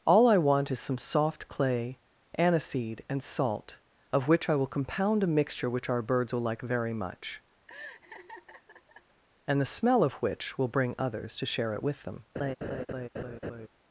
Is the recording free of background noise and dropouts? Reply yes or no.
no